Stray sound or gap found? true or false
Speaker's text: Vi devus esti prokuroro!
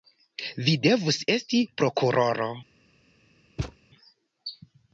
true